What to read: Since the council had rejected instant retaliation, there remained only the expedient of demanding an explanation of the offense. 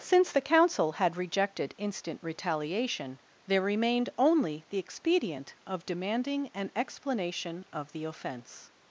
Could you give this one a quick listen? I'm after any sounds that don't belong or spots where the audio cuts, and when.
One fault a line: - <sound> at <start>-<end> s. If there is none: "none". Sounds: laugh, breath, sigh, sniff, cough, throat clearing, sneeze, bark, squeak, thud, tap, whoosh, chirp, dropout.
none